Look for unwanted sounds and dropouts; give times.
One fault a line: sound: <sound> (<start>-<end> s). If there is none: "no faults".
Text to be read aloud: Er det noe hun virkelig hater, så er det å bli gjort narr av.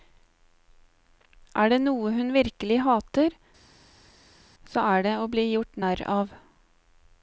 no faults